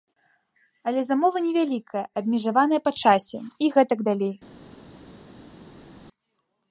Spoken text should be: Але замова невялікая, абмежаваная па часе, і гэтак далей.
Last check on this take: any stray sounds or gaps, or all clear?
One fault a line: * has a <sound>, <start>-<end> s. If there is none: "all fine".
all fine